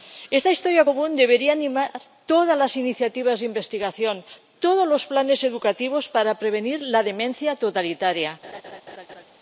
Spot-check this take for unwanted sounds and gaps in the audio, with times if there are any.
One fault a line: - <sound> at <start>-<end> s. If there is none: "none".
- laugh at 8.4-9.3 s